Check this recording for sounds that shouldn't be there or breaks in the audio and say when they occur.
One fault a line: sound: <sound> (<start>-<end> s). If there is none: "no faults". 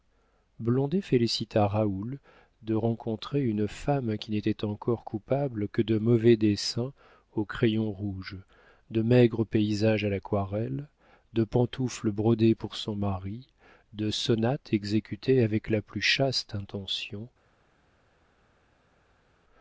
no faults